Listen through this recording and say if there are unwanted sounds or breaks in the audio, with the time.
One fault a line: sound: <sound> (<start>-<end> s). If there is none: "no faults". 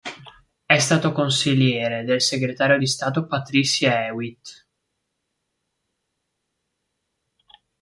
no faults